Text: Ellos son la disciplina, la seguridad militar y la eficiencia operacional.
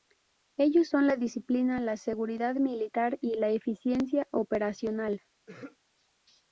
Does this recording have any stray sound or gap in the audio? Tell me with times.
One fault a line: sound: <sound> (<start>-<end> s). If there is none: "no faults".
sound: throat clearing (5.5-5.8 s)